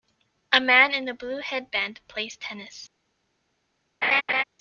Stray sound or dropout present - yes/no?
yes